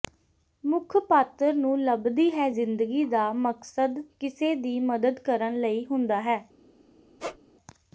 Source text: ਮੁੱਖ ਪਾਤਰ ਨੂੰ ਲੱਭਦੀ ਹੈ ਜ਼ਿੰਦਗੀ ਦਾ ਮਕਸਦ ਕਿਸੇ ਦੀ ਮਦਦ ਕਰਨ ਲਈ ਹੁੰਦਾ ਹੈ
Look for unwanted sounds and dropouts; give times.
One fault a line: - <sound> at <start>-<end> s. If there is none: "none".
- squeak at 7.2-7.4 s